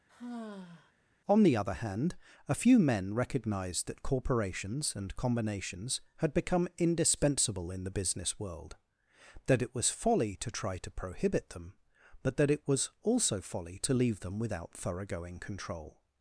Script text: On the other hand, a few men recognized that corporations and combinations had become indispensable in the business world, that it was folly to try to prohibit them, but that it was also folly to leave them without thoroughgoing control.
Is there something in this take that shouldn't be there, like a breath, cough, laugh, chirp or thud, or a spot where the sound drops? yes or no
yes